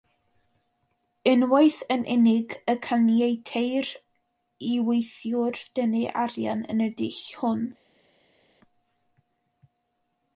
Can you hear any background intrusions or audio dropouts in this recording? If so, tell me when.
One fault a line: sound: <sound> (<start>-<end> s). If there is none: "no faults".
no faults